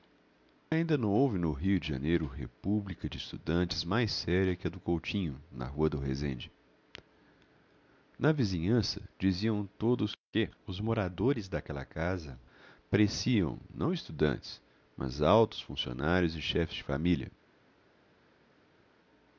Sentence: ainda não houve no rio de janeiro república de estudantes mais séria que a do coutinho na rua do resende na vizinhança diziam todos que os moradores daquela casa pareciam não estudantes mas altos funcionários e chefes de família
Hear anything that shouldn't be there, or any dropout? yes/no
no